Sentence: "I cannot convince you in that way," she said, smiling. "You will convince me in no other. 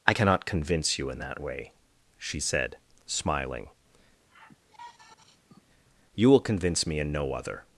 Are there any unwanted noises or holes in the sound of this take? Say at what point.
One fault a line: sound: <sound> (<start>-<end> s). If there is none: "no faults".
sound: sigh (4.3-5.6 s)